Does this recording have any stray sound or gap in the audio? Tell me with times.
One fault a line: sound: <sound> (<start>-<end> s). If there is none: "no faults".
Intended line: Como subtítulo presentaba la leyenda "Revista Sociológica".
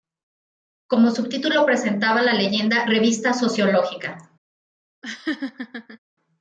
sound: laugh (5.0-6.0 s)